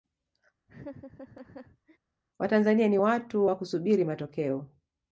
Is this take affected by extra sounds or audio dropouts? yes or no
yes